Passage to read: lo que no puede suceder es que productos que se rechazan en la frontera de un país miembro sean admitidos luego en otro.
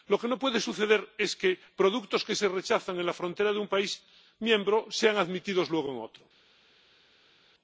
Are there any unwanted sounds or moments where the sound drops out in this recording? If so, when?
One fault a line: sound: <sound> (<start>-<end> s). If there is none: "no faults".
no faults